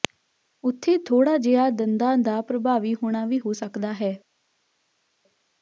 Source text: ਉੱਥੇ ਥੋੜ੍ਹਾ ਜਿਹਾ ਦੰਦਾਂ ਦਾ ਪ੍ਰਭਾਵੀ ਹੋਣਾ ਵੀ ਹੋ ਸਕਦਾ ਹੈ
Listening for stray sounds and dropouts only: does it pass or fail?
pass